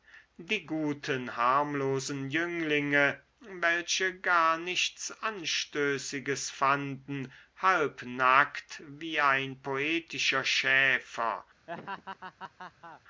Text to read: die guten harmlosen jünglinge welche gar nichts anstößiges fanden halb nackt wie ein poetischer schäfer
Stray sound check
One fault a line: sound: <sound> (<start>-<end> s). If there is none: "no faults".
sound: laugh (11.7-13.0 s)